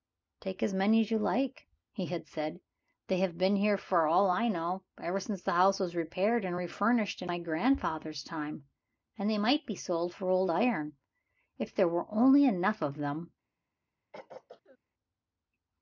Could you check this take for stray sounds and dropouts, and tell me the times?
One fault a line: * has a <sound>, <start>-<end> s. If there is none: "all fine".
* has a throat clearing, 14.1-14.8 s